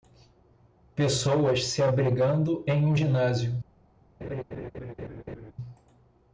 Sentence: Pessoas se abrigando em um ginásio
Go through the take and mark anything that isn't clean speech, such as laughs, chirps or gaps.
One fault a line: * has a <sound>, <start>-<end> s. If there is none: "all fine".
* has a laugh, 4.2-5.5 s